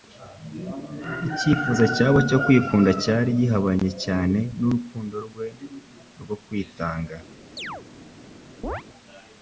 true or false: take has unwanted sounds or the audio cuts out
true